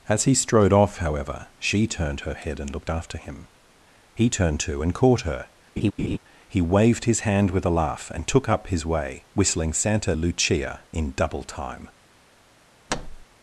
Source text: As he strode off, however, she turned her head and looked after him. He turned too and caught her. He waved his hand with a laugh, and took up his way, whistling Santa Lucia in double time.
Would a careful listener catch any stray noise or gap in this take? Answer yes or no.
yes